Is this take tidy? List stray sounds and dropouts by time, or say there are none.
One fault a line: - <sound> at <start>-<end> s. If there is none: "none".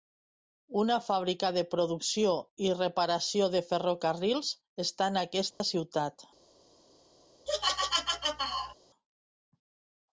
- dropout at 5.5-5.6 s
- laugh at 7.5-8.7 s